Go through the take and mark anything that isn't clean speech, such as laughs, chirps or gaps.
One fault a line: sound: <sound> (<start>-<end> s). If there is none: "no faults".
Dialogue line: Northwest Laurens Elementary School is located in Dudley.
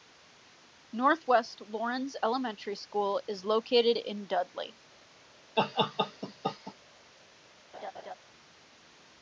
sound: laugh (5.6-6.7 s)
sound: laugh (7.7-8.1 s)